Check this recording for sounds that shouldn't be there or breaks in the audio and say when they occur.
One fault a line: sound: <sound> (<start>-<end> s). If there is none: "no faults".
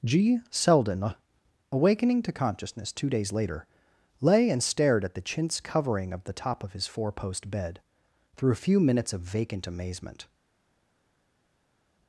no faults